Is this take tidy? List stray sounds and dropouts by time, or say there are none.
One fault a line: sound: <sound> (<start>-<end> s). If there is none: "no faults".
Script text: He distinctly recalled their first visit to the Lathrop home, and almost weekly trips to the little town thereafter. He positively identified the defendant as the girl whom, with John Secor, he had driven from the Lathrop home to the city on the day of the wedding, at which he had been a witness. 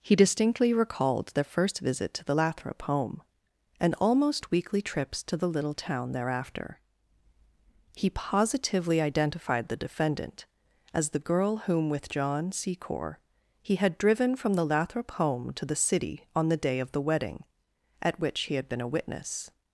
no faults